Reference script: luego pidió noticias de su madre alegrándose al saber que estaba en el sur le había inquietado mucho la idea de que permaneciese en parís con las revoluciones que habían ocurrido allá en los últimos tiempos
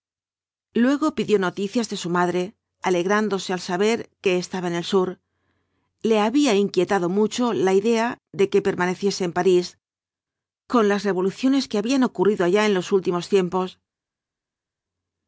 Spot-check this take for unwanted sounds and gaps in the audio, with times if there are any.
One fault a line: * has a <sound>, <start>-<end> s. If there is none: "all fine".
all fine